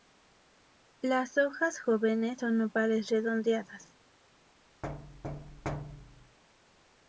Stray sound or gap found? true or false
true